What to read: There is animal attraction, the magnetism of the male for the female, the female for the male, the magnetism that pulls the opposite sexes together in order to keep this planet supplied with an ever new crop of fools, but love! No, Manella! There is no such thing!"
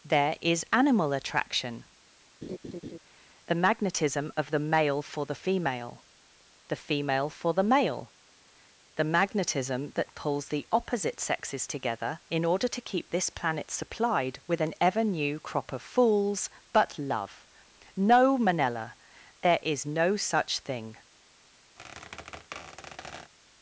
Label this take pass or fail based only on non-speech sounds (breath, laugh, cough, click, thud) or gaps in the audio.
fail